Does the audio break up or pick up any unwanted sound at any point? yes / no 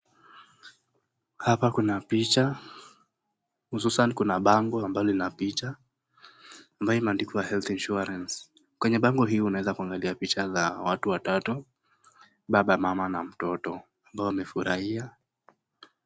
no